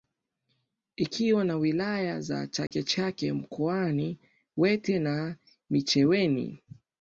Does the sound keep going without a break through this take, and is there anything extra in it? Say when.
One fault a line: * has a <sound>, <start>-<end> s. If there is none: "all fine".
* has a dropout, 2.7-2.7 s